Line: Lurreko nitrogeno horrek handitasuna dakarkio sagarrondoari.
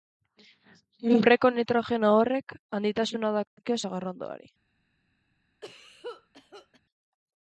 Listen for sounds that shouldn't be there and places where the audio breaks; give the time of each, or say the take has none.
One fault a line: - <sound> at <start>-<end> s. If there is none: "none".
- dropout at 3.5-3.6 s
- cough at 5.6-6.8 s